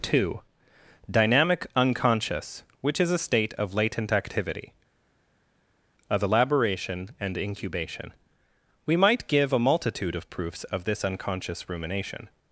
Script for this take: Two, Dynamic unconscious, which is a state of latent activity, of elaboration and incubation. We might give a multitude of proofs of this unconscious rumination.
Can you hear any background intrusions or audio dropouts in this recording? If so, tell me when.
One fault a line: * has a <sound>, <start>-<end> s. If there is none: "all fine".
all fine